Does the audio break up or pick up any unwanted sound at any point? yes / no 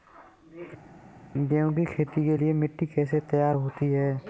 no